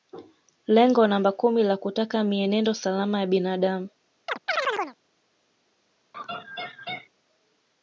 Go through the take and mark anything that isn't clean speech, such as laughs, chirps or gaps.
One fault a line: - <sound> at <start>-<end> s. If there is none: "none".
- chirp at 4.3-5.0 s
- laugh at 6.1-7.1 s